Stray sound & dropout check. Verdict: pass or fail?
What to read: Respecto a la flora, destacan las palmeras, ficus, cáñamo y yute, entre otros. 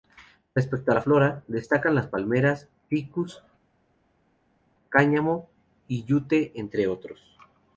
pass